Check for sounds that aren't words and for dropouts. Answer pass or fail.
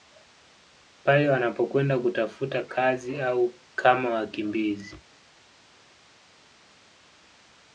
pass